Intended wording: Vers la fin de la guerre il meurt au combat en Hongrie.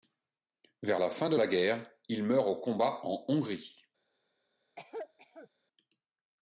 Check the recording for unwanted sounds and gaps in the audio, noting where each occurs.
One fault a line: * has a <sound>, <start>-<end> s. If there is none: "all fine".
* has a cough, 4.8-5.5 s